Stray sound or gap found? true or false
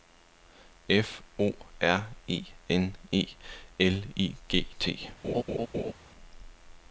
true